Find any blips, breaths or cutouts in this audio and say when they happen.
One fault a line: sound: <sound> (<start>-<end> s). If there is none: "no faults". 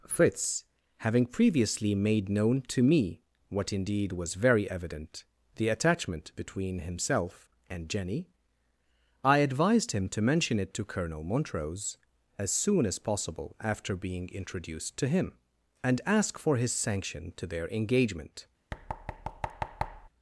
sound: thud (18.7-20.1 s)